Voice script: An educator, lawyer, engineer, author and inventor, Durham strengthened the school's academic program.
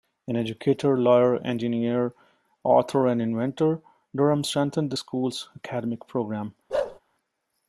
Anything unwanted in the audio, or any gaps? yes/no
yes